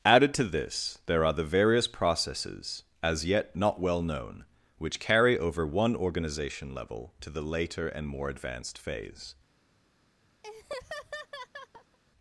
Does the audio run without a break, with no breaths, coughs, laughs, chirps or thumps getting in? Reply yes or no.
no